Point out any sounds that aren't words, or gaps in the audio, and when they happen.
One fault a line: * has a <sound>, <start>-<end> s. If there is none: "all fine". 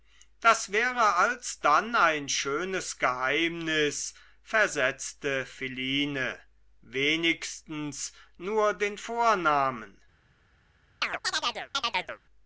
* has a chirp, 11.0-12.2 s